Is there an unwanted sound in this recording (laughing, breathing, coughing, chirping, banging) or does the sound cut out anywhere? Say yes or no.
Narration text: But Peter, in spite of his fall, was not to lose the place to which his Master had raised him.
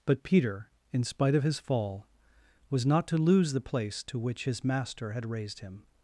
no